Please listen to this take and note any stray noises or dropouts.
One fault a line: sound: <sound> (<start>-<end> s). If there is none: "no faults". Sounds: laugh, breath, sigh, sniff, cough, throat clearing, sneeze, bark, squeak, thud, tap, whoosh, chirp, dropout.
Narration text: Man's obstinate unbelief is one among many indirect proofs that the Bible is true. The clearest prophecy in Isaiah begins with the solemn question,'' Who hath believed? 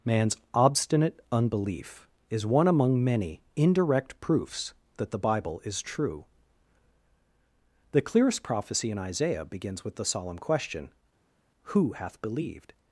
no faults